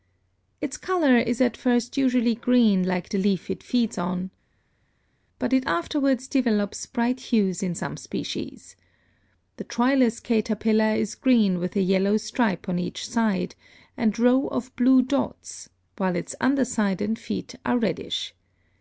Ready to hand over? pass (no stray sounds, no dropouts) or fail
pass